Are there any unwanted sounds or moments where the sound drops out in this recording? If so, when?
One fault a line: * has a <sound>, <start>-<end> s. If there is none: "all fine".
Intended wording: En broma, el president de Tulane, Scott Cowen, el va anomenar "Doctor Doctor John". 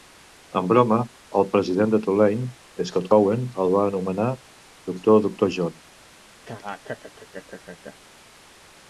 * has a laugh, 6.5-8.0 s